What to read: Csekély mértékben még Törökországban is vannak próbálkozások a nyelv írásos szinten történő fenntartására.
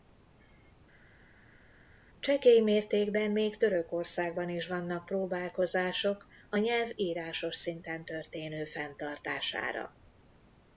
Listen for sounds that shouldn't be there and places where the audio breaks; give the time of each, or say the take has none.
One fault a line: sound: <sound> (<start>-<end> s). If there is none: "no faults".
no faults